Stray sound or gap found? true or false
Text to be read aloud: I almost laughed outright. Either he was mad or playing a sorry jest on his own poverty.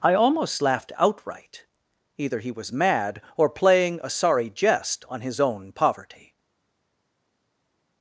false